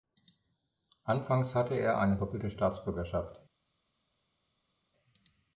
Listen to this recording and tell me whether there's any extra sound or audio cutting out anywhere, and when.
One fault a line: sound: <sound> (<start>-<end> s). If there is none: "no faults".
no faults